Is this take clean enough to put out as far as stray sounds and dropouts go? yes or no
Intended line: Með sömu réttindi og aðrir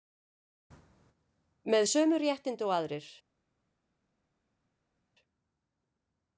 yes